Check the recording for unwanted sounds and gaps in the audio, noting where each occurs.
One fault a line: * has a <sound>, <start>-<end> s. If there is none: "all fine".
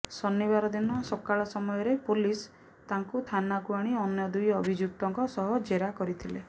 all fine